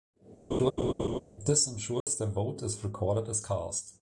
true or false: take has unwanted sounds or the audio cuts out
true